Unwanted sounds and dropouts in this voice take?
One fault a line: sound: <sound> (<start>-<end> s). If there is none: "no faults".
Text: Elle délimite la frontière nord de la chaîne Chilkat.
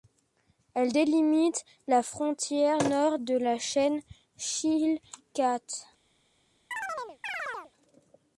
sound: chirp (6.7-7.7 s)